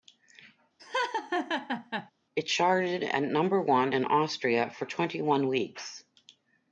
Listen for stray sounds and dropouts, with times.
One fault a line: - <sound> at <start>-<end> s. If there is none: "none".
- laugh at 0.8-2.1 s